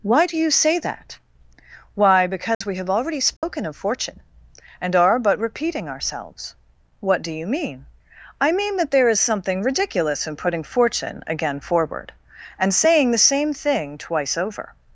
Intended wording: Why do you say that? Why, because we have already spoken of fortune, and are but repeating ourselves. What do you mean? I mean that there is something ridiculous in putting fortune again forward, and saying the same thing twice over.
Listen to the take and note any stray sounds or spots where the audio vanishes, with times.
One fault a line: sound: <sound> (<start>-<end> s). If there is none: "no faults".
sound: dropout (2.5-2.6 s)
sound: dropout (3.4-3.4 s)